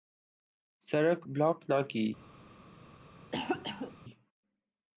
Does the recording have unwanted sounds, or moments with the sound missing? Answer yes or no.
yes